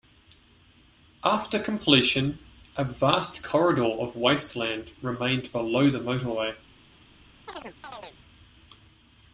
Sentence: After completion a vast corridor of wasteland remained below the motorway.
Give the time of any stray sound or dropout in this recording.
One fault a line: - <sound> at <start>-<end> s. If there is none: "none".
- chirp at 7.5-8.2 s